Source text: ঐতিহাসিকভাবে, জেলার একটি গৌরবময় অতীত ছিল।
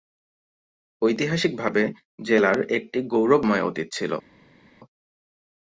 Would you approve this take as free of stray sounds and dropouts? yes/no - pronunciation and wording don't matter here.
yes